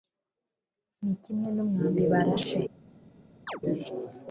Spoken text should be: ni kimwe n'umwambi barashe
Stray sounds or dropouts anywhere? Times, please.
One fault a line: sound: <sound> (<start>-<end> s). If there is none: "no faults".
sound: chirp (3.5-3.6 s)